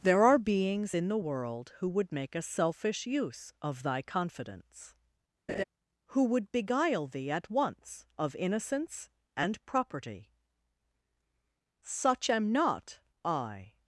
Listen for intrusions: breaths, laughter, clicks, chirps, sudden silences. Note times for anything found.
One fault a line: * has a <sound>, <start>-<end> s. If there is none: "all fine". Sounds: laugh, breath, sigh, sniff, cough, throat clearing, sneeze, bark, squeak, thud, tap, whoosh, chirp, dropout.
* has a laugh, 5.5-5.6 s